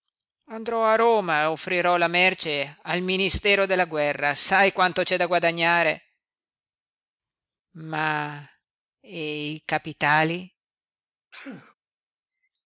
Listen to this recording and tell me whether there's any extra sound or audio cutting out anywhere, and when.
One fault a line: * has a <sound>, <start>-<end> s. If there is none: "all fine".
* has a sneeze, 11.3-11.7 s